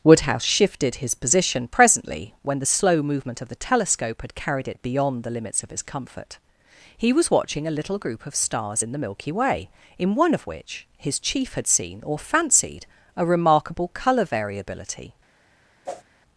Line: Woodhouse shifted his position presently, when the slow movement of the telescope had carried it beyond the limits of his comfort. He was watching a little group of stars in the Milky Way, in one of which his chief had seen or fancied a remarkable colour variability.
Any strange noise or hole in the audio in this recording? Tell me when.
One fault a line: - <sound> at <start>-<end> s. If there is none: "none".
- whoosh at 15.9-16.0 s